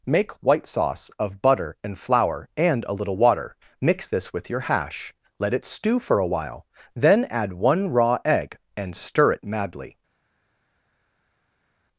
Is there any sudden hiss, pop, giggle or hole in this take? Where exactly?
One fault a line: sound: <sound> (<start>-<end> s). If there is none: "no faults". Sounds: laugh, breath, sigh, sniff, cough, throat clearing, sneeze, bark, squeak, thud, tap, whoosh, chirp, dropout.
no faults